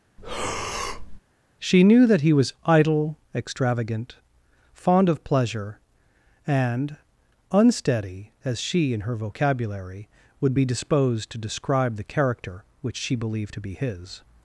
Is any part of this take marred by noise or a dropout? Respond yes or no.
yes